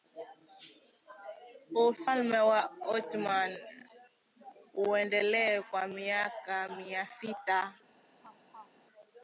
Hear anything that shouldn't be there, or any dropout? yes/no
yes